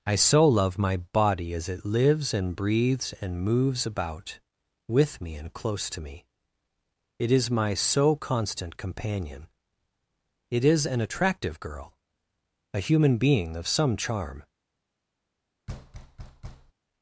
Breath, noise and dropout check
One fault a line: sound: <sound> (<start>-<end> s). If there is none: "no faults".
sound: thud (15.7-16.7 s)